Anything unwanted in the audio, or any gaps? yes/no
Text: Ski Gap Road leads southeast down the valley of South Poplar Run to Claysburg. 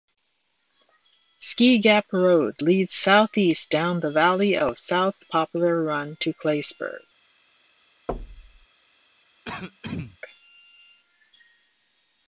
yes